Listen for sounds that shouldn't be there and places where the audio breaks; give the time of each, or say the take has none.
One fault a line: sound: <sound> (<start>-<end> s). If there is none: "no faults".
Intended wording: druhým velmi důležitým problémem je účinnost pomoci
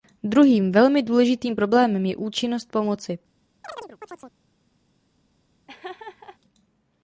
sound: chirp (3.6-4.3 s)
sound: laugh (5.7-6.4 s)